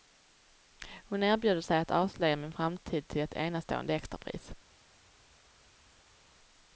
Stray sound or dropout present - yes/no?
no